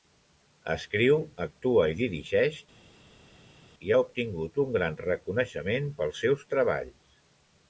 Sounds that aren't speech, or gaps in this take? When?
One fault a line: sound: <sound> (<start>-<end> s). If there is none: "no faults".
no faults